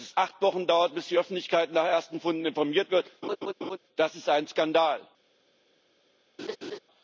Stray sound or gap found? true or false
true